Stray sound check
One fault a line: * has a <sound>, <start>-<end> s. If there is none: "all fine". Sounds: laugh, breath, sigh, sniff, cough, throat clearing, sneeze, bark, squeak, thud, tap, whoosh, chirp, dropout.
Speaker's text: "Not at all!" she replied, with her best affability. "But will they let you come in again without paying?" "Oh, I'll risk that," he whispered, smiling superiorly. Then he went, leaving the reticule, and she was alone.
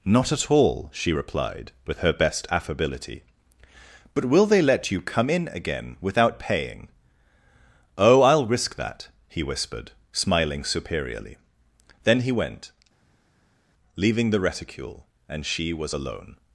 all fine